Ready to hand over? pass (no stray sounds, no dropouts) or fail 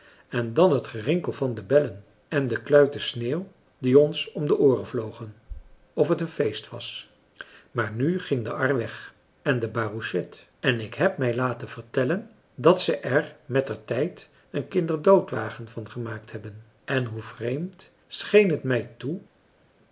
pass